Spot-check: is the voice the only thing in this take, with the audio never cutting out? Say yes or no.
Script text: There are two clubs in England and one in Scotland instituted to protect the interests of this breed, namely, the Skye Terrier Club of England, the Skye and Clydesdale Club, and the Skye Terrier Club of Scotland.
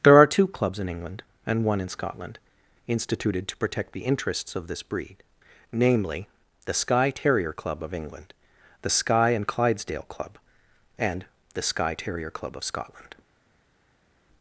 yes